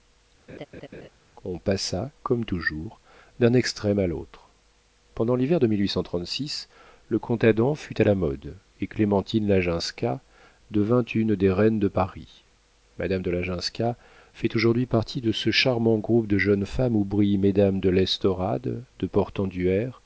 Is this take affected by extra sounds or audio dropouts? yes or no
yes